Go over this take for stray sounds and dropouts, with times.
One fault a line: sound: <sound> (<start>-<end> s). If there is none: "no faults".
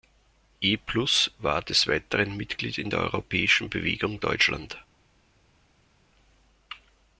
no faults